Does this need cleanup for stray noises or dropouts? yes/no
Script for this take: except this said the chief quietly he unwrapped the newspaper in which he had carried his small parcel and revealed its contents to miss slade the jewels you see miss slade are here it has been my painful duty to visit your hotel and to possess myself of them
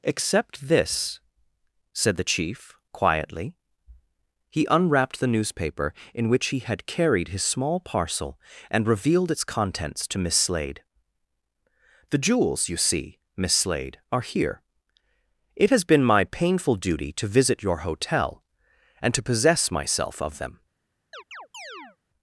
yes